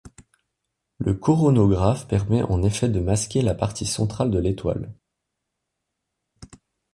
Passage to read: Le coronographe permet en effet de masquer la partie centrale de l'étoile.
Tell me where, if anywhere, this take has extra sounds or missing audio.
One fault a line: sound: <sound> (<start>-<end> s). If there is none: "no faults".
no faults